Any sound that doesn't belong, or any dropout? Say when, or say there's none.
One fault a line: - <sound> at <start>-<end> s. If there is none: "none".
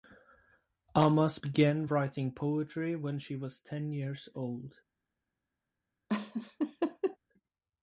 - laugh at 6.1-7.2 s